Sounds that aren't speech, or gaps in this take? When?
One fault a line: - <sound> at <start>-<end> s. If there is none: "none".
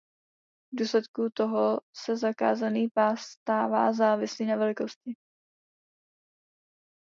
none